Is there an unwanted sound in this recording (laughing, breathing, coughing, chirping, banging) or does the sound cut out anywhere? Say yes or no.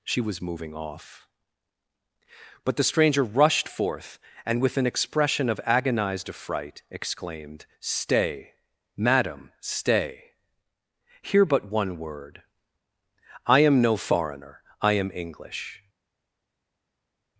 no